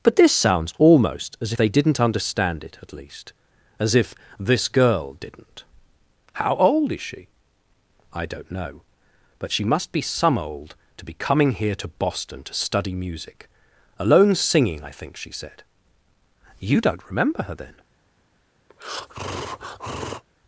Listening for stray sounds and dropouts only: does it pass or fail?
fail